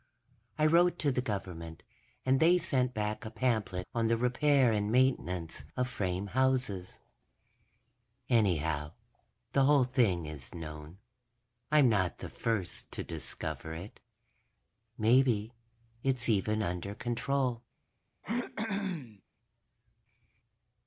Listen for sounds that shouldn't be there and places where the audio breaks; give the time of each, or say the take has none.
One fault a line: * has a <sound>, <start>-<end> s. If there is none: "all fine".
* has a throat clearing, 18.2-19.2 s